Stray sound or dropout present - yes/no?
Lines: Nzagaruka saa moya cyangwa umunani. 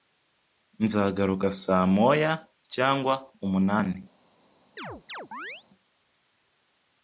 yes